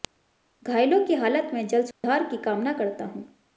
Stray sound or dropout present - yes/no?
yes